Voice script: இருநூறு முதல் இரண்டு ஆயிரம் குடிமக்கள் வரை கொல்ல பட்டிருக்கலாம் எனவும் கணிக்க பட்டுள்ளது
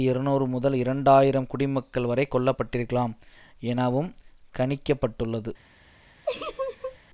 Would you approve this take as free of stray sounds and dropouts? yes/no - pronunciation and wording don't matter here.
no